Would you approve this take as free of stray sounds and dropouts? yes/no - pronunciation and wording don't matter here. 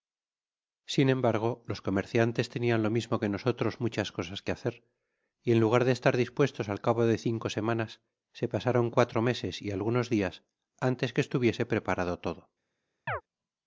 no